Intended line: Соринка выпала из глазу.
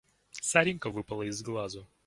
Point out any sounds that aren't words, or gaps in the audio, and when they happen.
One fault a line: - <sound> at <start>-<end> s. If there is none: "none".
none